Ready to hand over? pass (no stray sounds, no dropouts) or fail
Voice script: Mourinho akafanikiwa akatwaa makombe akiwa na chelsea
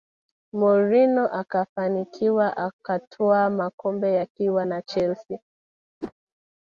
fail